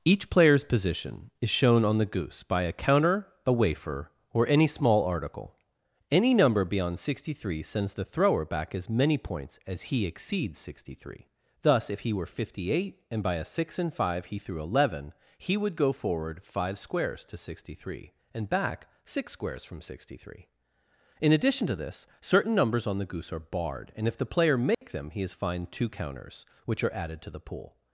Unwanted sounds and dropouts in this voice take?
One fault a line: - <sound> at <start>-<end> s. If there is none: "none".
- dropout at 24.7-24.8 s